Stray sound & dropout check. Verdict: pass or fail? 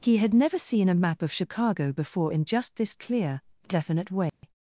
fail